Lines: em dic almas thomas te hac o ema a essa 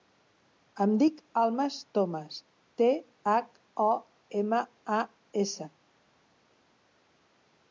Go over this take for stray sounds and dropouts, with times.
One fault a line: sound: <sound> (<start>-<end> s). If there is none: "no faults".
no faults